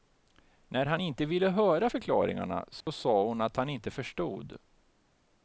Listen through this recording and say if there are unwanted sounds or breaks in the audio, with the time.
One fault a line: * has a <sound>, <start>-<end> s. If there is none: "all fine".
* has a dropout, 2.8-2.9 s